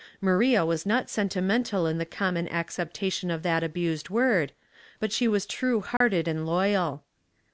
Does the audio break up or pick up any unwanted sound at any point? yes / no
yes